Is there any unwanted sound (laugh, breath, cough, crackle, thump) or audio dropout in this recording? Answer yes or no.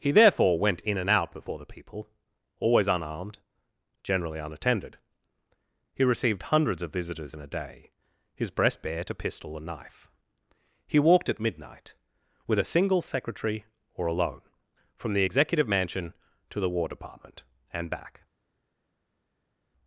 no